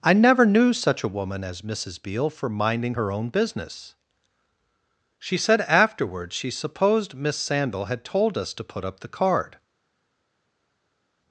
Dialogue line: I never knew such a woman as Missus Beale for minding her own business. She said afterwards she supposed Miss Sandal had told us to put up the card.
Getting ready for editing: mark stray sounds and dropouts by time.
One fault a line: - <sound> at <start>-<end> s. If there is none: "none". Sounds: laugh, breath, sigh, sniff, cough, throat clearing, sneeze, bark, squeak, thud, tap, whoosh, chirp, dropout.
none